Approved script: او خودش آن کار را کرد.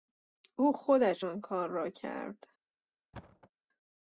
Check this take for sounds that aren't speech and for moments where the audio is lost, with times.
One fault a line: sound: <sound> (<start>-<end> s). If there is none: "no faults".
sound: thud (3.1-3.5 s)